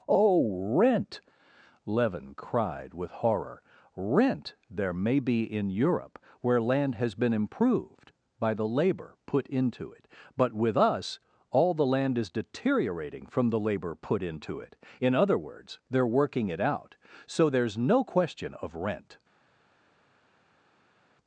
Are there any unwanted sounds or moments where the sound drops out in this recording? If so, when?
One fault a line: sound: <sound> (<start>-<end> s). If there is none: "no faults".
no faults